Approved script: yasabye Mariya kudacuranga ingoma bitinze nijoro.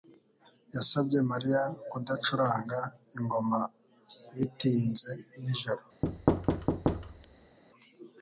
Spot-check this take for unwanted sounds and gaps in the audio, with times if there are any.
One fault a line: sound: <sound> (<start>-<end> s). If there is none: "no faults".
sound: thud (6.0-7.6 s)